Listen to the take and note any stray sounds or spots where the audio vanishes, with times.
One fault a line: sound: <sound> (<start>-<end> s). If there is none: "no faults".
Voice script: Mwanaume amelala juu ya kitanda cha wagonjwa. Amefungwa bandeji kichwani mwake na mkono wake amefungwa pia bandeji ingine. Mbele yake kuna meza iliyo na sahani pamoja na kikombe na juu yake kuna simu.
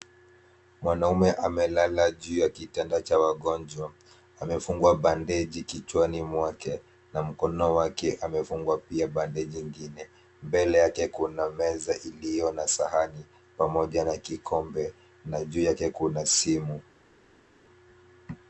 no faults